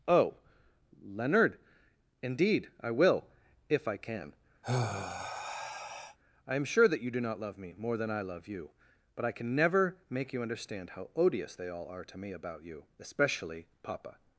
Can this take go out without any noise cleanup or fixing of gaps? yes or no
no